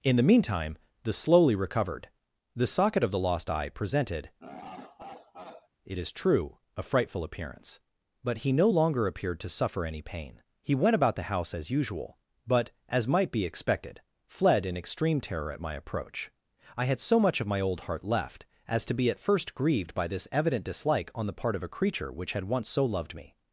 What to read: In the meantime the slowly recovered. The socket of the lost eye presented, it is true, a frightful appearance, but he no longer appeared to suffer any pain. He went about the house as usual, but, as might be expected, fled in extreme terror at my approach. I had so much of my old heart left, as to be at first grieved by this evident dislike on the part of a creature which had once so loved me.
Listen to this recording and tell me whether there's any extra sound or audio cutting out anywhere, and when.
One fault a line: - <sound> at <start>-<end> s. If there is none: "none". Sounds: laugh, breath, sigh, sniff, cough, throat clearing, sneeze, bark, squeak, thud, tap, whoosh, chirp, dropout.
- laugh at 4.4-5.7 s